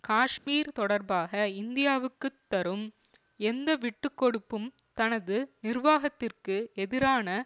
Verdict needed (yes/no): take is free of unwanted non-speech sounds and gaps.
no